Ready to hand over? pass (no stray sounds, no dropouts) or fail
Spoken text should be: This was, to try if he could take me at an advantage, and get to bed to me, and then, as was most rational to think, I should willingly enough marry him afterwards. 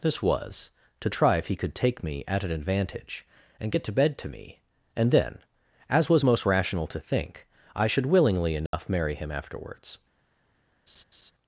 fail